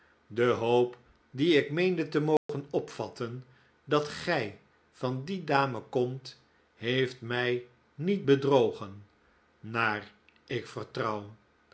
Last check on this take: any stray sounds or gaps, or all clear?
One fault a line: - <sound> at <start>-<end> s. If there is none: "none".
- dropout at 2.4-2.5 s